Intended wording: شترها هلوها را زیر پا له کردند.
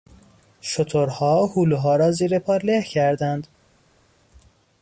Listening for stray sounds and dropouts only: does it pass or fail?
pass